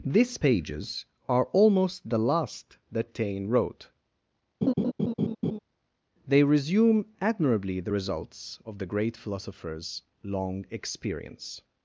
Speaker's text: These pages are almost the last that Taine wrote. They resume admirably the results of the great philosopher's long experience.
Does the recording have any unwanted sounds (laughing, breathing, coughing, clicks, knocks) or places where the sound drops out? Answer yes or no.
yes